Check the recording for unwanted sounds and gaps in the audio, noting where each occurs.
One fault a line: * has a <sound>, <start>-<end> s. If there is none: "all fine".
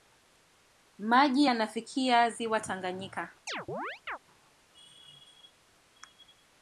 * has a chirp, 3.5-4.2 s